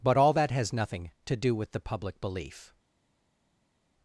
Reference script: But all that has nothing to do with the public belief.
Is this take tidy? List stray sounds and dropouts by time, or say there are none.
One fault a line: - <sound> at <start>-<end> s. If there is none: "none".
none